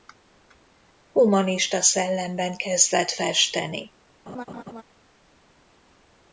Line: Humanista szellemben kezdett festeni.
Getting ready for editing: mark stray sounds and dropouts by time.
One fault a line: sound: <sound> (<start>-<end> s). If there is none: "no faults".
sound: laugh (4.3-4.8 s)